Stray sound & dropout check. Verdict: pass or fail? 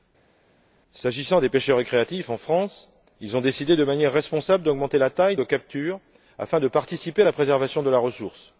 pass